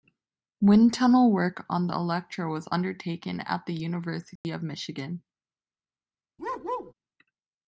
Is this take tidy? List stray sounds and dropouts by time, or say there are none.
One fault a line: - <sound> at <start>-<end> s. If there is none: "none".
- dropout at 4.4-4.4 s
- bark at 6.4-6.9 s